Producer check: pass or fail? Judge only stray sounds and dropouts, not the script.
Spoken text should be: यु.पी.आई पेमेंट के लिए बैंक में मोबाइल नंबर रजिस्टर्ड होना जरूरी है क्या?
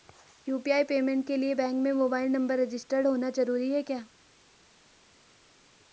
pass